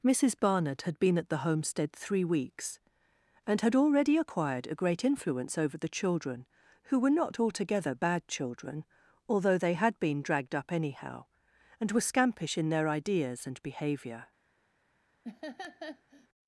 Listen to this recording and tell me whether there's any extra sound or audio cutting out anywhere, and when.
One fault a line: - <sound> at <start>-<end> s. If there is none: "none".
- laugh at 15.2-16.3 s